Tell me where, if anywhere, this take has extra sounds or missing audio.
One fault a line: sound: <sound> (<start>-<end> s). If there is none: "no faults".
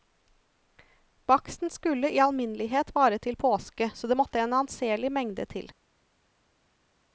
no faults